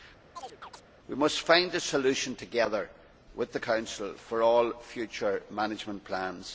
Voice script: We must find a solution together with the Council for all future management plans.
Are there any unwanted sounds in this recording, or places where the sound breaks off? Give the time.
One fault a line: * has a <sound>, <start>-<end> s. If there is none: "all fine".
* has a chirp, 0.4-0.8 s